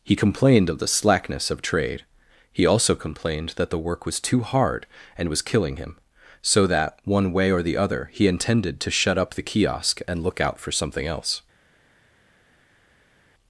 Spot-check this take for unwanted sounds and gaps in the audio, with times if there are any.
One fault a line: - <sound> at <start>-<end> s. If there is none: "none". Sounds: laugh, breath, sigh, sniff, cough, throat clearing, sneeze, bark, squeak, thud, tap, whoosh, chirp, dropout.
none